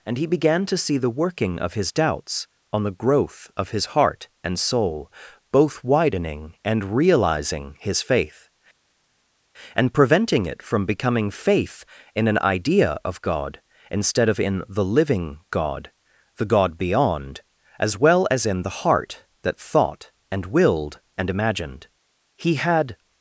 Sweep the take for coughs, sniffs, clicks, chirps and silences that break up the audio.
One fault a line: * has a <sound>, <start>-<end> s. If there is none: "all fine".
all fine